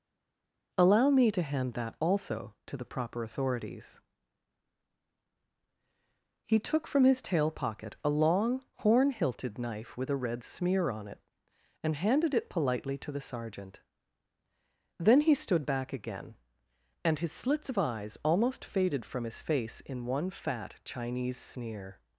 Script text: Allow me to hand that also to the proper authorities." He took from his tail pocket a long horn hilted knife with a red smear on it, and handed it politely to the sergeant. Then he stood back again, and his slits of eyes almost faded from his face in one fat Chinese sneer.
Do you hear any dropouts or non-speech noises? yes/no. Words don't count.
no